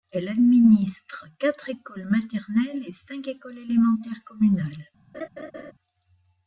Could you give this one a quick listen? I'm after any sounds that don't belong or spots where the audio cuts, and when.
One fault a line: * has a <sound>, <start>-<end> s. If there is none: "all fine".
* has a laugh, 5.1-5.7 s